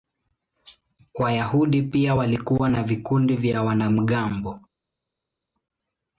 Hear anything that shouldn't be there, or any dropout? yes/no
no